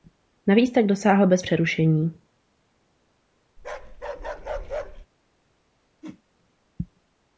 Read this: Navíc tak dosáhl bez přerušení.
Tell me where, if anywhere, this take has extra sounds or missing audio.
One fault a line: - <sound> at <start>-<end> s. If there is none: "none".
- bark at 3.6-5.1 s
- whoosh at 6.0-6.2 s